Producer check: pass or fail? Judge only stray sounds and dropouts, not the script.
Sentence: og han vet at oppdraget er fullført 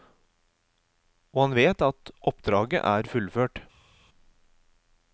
pass